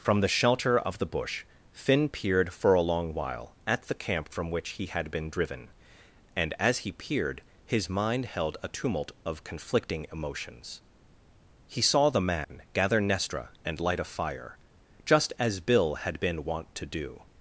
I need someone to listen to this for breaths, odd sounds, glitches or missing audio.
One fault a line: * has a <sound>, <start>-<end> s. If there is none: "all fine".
* has a dropout, 12.4-12.5 s